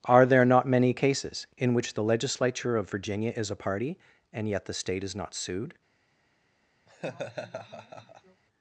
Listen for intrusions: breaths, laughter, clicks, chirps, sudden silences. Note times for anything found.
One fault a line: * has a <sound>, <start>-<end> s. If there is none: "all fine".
* has a laugh, 6.9-8.4 s